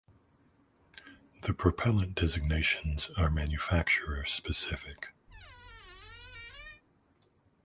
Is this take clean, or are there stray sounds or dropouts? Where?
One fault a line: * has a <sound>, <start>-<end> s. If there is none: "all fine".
* has a squeak, 5.3-6.8 s